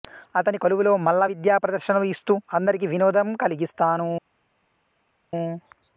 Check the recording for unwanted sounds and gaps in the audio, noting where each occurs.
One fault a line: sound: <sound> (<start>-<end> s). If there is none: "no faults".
no faults